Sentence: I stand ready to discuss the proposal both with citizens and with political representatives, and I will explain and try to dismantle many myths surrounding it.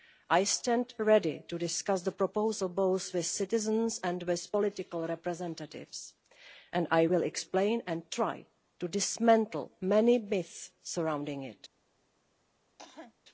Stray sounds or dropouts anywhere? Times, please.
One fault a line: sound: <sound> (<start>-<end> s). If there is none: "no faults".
sound: cough (12.8-13.1 s)